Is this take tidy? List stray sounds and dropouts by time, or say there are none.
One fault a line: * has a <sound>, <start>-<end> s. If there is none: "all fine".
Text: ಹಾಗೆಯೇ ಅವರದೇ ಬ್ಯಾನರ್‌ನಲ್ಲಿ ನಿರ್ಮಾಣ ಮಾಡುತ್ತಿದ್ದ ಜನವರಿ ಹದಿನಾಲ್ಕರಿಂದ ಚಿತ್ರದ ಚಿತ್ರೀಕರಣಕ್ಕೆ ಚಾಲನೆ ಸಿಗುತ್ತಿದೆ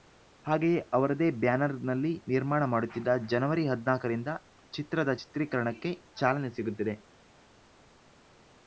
all fine